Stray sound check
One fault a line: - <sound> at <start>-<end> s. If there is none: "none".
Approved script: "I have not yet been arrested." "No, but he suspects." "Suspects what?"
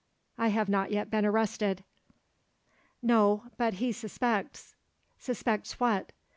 none